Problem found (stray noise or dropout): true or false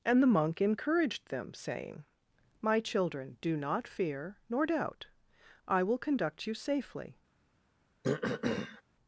true